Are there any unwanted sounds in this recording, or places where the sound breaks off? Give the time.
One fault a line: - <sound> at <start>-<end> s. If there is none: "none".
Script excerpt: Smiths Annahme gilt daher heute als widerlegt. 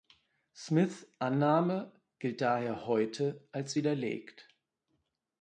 none